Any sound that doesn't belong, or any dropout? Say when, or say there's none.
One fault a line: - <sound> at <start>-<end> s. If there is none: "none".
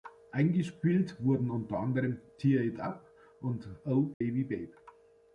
- dropout at 4.1-4.2 s